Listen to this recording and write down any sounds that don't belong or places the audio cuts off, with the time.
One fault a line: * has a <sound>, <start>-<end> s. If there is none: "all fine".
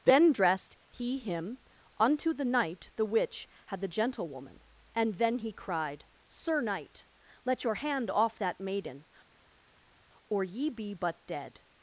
all fine